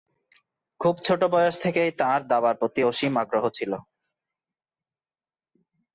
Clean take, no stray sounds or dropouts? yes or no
yes